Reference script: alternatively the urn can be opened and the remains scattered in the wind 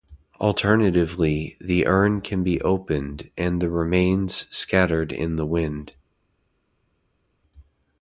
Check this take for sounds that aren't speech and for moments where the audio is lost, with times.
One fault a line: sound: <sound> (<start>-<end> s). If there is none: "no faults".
no faults